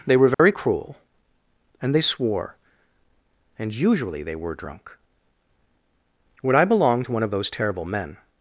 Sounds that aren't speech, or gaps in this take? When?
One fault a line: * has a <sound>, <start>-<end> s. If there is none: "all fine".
* has a dropout, 0.3-0.4 s